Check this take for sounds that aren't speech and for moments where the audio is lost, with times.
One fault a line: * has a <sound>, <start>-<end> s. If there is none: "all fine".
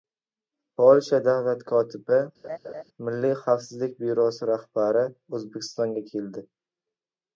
* has a laugh, 2.4-2.8 s